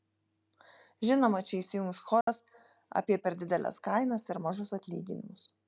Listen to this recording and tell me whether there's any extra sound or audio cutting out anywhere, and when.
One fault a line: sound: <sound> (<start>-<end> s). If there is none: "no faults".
sound: dropout (2.2-2.3 s)